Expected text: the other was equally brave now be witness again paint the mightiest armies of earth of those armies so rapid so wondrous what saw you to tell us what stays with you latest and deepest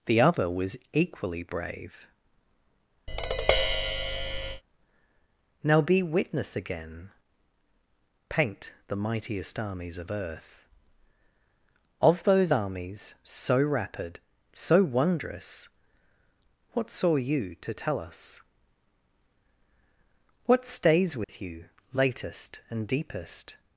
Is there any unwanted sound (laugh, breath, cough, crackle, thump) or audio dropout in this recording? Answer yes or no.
yes